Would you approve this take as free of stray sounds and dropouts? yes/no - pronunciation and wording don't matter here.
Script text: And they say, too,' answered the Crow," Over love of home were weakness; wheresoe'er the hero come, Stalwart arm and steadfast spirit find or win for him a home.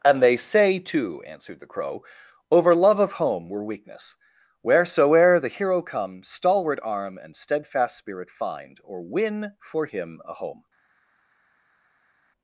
yes